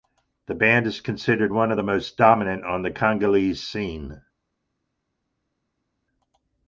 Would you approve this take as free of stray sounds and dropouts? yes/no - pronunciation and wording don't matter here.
yes